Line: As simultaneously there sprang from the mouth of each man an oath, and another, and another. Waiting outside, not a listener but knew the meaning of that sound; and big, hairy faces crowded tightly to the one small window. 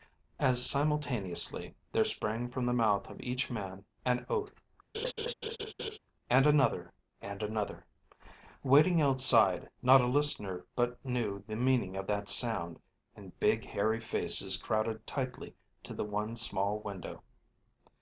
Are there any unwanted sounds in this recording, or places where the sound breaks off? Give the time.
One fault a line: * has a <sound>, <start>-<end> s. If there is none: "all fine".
* has a laugh, 4.9-6.0 s